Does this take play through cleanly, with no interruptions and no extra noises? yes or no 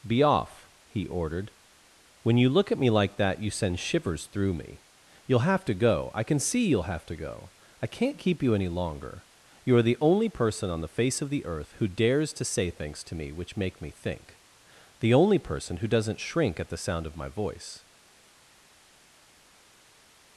yes